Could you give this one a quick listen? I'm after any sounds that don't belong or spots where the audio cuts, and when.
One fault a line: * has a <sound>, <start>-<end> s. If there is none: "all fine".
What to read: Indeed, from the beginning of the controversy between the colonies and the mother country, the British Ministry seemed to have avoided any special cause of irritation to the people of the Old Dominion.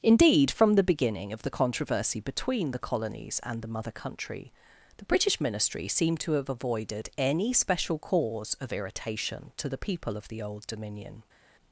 all fine